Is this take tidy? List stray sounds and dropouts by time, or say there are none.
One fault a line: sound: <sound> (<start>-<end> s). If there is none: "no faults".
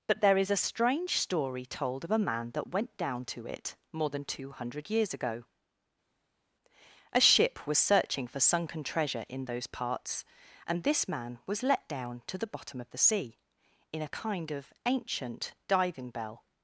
no faults